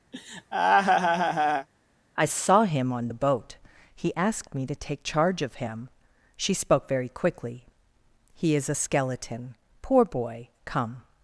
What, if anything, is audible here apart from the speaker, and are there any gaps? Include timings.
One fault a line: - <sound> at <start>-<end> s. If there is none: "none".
- laugh at 0.1-1.7 s